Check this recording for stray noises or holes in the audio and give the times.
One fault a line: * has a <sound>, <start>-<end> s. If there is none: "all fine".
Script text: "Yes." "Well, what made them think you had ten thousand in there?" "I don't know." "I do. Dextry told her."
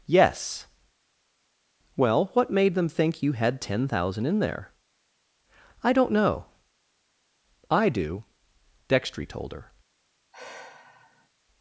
* has a sigh, 10.3-11.3 s